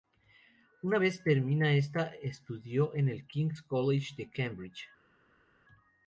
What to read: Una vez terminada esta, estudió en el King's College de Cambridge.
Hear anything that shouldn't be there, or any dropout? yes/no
no